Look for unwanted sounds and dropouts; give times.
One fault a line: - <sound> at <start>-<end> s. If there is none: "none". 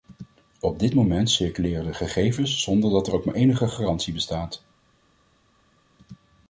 none